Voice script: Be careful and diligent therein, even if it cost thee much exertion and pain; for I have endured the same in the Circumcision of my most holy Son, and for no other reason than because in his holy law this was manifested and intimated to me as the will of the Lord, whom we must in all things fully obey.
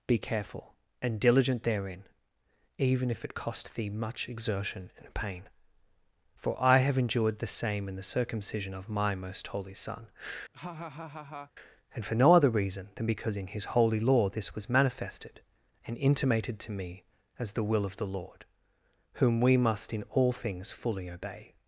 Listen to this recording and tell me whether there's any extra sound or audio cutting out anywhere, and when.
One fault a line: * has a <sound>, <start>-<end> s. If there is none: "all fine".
* has a laugh, 10.5-11.5 s